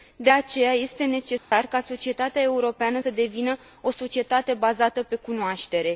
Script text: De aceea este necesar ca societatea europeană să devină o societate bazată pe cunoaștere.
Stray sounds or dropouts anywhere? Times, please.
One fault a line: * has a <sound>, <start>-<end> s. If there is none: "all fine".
* has a dropout, 1.4-1.5 s